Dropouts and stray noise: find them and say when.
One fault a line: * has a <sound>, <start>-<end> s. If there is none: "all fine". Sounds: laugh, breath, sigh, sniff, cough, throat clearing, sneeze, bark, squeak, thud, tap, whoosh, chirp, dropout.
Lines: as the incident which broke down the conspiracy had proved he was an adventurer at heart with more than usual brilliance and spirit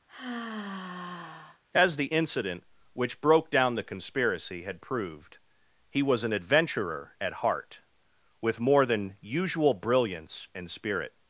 * has a sigh, 0.1-1.6 s